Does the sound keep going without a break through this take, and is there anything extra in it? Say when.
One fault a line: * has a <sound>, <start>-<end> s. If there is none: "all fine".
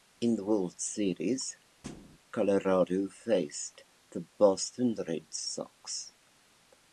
* has a thud, 1.8-2.2 s